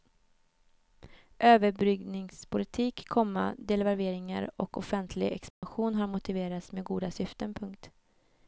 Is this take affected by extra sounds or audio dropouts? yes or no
yes